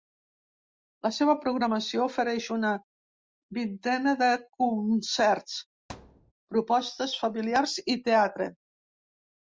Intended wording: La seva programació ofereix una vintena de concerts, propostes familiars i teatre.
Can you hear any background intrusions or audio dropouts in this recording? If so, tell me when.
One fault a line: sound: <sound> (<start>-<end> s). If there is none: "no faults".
sound: thud (5.9-6.3 s)